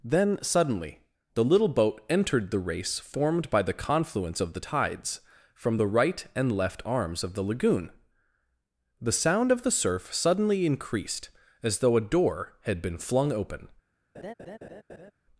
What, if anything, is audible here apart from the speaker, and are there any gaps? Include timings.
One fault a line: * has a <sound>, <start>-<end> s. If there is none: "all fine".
* has a laugh, 14.1-15.1 s